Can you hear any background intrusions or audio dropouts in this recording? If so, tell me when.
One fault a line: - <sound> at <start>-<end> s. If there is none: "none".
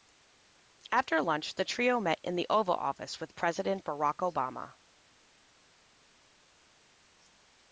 none